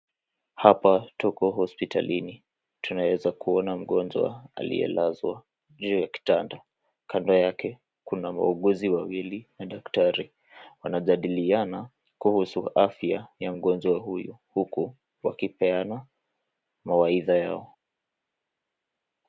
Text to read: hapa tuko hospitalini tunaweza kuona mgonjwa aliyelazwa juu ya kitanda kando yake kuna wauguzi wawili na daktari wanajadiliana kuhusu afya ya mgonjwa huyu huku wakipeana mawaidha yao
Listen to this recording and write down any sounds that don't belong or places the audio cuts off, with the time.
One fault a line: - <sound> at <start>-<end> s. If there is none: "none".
none